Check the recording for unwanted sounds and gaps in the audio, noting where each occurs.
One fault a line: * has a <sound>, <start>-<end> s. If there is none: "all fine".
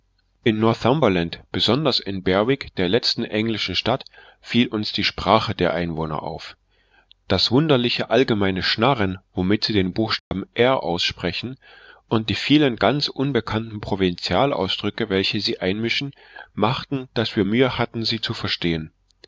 * has a dropout, 10.2-10.3 s